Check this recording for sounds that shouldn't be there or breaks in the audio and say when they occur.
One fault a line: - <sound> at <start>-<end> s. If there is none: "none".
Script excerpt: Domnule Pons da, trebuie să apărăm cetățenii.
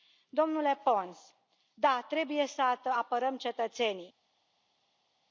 none